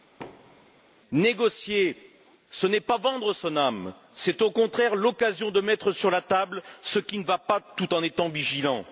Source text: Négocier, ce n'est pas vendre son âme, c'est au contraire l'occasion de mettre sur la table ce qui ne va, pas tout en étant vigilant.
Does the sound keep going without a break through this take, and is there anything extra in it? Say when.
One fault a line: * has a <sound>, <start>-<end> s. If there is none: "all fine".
* has a thud, 0.2-0.8 s